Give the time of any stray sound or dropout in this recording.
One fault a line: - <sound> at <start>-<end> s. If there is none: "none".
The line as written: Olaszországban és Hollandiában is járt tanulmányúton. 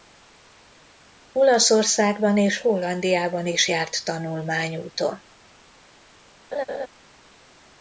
- laugh at 6.5-6.9 s